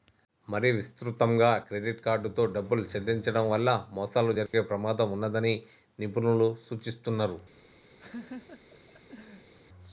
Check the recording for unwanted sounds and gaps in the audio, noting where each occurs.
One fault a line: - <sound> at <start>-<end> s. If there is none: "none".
- dropout at 4.5-4.5 s
- laugh at 8.0-9.5 s